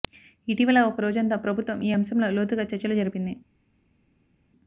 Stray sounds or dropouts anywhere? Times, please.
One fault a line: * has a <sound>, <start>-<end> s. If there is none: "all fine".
all fine